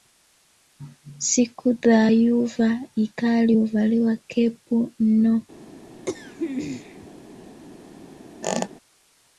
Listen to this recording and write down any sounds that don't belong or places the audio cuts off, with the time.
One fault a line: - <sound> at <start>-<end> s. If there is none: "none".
- throat clearing at 6.1-7.1 s
- squeak at 8.4-8.7 s